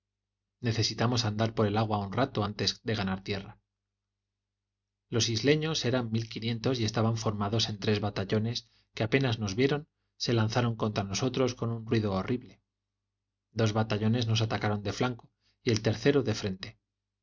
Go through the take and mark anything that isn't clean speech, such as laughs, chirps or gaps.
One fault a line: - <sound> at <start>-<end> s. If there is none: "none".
none